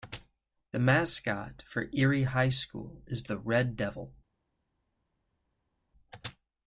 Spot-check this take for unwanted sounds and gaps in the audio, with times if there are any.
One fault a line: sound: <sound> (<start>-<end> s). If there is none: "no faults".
no faults